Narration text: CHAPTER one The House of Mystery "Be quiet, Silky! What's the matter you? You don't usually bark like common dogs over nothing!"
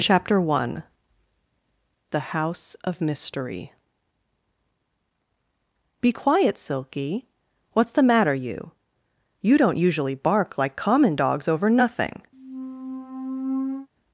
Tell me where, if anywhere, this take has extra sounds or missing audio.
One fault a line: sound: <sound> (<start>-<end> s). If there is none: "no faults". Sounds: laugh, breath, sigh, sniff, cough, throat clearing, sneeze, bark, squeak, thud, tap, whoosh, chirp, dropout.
sound: squeak (12.3-13.9 s)